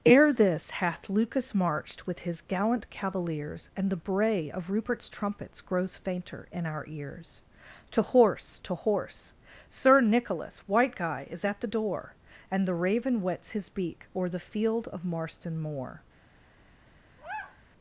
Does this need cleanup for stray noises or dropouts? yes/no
yes